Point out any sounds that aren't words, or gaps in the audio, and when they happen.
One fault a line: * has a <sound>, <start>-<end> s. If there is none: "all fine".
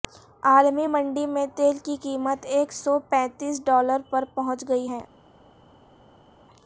all fine